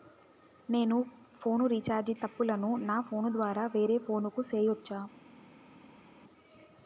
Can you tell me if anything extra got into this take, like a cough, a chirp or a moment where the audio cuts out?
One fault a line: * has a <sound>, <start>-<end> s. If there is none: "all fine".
all fine